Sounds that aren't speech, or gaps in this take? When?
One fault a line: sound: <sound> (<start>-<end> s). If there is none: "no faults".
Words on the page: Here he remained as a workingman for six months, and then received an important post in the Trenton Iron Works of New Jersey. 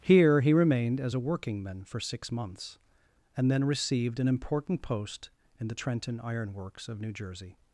no faults